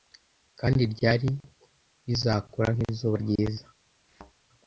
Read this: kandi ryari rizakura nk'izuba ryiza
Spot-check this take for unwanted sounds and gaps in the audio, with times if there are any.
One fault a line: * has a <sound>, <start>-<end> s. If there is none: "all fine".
* has a thud, 4.1-4.3 s